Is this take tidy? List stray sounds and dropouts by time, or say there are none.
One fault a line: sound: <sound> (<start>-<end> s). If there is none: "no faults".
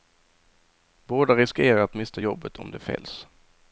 no faults